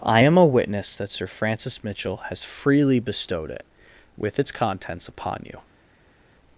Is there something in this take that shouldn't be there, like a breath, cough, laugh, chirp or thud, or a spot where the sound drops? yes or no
no